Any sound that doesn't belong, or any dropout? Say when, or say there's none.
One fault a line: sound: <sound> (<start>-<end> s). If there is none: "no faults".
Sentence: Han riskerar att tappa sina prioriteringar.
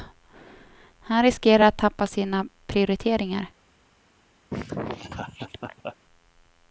sound: laugh (4.5-6.0 s)